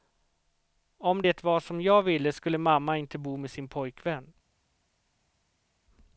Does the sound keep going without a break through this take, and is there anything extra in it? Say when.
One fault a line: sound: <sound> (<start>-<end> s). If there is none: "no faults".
no faults